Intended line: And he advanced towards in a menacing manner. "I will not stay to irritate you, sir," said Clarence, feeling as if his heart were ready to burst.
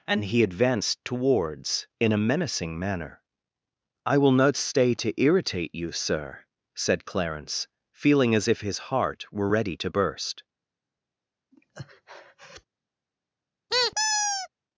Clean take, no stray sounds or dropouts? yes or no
no